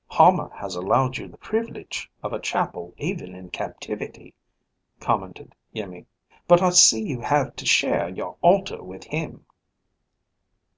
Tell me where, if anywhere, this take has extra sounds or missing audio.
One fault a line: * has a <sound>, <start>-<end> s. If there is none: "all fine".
all fine